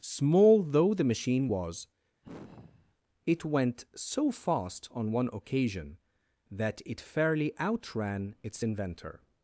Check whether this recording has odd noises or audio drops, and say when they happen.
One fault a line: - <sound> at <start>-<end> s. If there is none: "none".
- sigh at 2.2-3.0 s